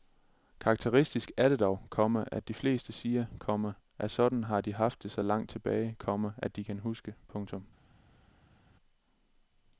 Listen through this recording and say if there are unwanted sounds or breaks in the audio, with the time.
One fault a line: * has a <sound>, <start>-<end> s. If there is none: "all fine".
all fine